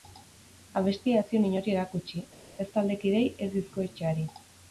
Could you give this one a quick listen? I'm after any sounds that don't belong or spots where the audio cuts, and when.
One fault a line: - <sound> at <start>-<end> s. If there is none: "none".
none